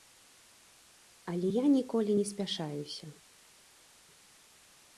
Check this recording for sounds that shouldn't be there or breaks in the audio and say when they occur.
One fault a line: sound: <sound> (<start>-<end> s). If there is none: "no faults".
no faults